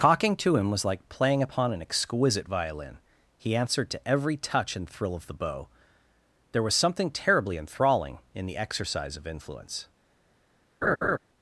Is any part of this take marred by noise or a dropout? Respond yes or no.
yes